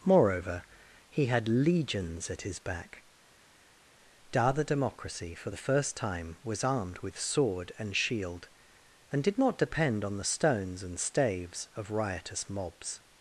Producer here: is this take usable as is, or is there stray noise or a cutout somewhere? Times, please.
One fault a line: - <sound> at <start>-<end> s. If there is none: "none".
none